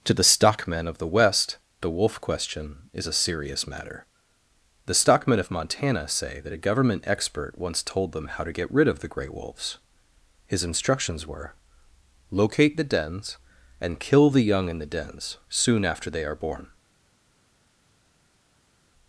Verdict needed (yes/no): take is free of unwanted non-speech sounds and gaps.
yes